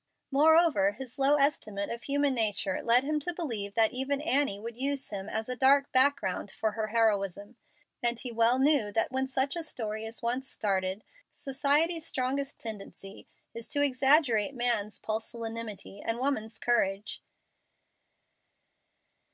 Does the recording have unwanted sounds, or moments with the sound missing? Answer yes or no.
no